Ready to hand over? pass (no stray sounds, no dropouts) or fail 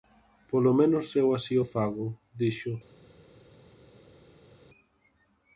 pass